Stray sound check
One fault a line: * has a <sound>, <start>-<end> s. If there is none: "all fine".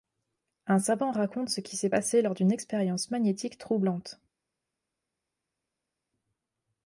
all fine